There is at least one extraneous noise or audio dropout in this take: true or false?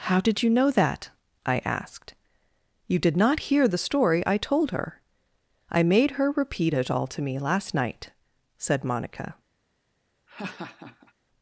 true